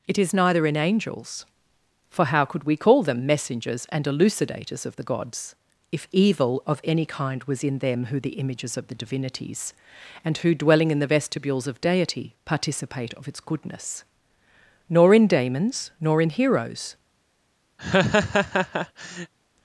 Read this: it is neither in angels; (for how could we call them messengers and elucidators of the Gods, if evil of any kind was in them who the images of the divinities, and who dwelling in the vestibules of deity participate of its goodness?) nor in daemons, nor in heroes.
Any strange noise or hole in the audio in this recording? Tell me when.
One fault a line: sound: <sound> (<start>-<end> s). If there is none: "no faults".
sound: laugh (17.8-19.3 s)